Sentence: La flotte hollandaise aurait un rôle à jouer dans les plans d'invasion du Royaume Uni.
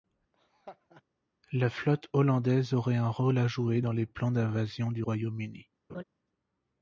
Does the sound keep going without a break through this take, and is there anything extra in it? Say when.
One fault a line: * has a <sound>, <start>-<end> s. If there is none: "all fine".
* has a laugh, 0.3-1.0 s
* has a laugh, 5.9-6.0 s